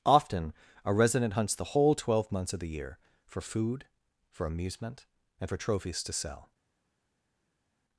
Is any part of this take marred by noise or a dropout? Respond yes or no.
no